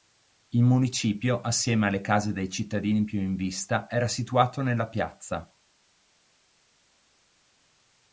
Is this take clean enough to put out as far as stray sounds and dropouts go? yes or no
yes